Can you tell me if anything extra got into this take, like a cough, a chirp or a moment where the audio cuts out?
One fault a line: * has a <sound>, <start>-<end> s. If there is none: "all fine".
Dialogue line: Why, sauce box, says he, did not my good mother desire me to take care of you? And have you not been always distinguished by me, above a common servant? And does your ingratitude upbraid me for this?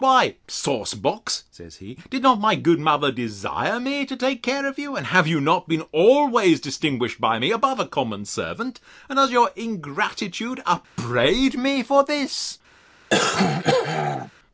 * has a dropout, 10.8-11.0 s
* has a throat clearing, 13.1-14.3 s